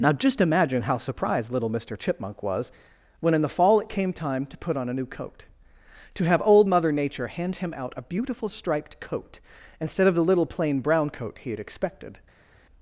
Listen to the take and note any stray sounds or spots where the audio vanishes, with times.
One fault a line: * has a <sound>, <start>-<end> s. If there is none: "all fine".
all fine